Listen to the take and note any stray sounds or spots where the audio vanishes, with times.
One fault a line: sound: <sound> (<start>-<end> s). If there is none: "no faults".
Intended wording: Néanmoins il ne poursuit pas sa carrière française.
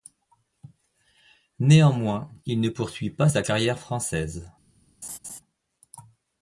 sound: laugh (5.0-5.4 s)